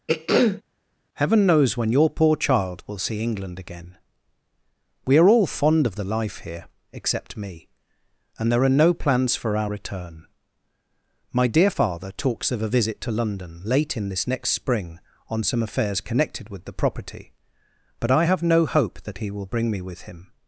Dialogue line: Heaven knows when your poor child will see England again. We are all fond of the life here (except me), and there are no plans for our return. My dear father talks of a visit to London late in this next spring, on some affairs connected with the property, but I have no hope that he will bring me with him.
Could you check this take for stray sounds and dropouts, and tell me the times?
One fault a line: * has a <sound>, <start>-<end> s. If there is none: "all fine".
* has a throat clearing, 0.1-0.6 s